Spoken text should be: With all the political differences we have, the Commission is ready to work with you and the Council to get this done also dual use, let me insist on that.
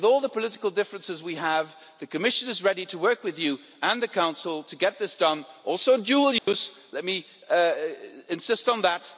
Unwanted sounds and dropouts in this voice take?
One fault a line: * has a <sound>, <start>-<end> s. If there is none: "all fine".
* has a dropout, 6.4-6.5 s